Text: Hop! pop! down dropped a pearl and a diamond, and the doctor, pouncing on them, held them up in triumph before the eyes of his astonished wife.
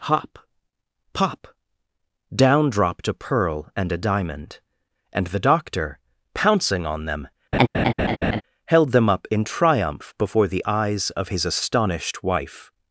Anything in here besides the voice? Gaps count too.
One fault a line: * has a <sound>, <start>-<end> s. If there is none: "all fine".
* has a laugh, 7.5-8.4 s